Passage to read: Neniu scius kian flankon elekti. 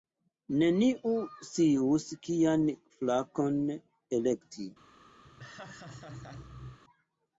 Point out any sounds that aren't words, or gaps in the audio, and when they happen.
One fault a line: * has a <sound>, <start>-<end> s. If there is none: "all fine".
* has a laugh, 5.2-6.8 s